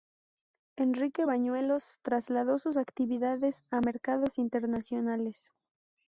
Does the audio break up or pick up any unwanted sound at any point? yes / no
no